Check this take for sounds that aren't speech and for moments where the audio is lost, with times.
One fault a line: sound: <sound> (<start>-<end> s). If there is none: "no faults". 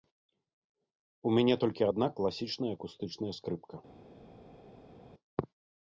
no faults